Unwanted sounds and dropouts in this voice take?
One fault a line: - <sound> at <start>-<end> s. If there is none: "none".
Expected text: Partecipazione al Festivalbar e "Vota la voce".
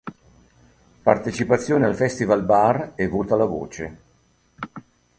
none